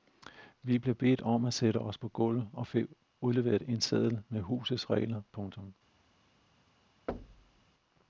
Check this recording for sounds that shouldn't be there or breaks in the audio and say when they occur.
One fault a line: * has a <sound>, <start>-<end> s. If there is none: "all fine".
* has a thud, 7.1-7.7 s